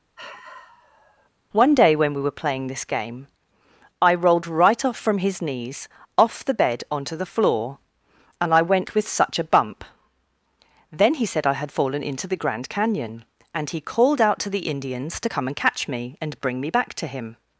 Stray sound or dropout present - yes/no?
yes